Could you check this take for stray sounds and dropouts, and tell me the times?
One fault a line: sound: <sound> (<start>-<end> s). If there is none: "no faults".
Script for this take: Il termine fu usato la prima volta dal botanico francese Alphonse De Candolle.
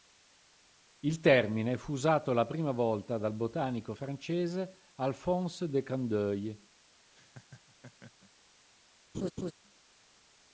sound: laugh (7.1-8.3 s)
sound: laugh (9.1-9.5 s)